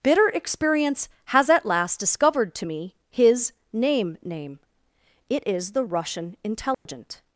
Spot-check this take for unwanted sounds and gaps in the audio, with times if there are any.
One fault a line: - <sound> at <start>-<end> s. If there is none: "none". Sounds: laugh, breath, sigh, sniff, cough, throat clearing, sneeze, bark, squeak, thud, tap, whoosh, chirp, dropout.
- dropout at 6.7-6.9 s